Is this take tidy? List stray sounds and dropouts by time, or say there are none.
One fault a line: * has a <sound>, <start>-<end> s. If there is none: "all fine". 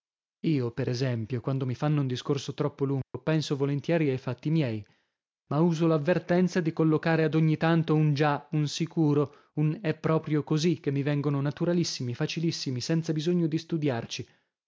* has a dropout, 3.0-3.1 s